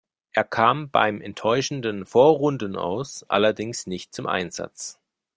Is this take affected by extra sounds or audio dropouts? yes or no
no